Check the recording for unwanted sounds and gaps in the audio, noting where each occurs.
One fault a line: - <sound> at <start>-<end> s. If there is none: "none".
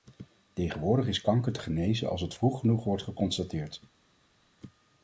none